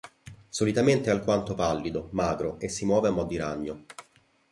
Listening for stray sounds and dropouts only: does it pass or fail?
pass